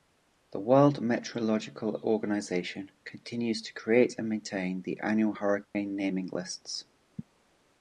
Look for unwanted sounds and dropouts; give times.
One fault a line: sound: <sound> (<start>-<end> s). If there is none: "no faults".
sound: dropout (5.6-5.7 s)